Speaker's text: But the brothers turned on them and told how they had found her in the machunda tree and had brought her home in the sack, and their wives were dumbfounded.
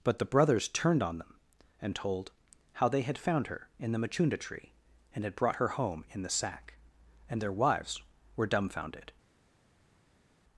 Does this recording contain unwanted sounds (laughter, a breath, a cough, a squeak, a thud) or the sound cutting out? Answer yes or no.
no